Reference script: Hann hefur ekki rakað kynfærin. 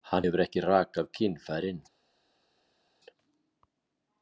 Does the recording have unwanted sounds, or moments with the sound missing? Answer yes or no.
no